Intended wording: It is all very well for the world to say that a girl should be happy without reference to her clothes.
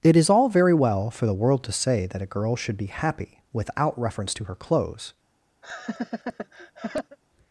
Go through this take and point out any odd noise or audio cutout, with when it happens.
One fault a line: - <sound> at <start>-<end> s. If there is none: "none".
- laugh at 5.6-7.2 s